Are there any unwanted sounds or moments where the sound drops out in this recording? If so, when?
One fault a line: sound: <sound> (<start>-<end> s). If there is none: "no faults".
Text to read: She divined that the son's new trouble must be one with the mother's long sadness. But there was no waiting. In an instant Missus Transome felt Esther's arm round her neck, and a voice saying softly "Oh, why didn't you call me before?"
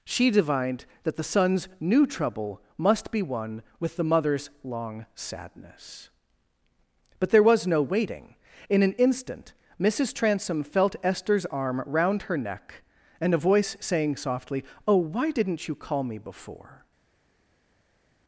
no faults